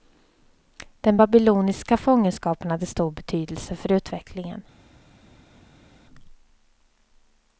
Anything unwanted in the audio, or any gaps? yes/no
no